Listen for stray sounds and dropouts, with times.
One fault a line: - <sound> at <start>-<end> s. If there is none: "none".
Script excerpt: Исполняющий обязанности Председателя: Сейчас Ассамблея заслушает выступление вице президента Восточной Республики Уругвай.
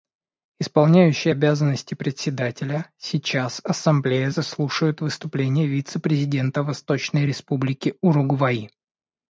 none